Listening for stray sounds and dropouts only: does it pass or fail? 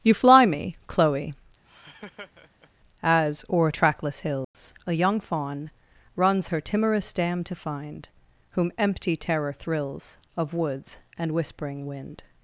fail